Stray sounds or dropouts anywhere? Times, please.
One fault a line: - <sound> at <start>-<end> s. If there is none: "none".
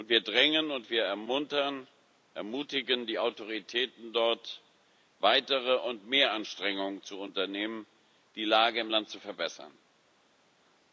none